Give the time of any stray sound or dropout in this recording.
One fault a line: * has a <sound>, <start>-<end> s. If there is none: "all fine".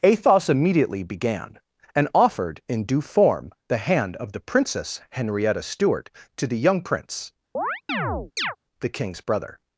* has a chirp, 7.5-8.6 s